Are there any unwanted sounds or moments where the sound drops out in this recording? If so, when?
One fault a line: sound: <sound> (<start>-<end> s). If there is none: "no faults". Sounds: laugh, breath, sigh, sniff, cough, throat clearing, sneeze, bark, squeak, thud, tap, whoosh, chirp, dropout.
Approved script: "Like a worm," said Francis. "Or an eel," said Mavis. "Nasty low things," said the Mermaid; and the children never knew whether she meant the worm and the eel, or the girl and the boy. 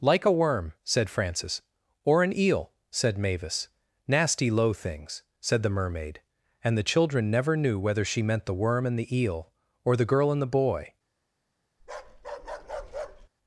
sound: bark (11.8-13.3 s)